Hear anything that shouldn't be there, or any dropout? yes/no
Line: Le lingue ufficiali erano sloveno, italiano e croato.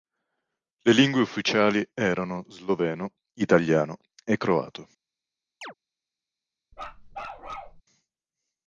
yes